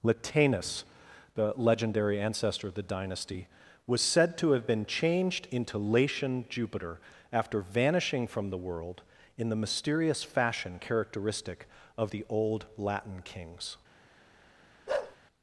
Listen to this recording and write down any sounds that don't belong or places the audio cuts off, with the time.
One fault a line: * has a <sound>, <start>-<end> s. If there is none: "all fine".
* has a bark, 14.9-15.2 s